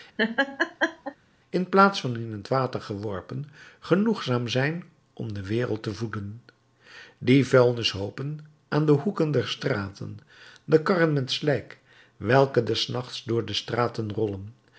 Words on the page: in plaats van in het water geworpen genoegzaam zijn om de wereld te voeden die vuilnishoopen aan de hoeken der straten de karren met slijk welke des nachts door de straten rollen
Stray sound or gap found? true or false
true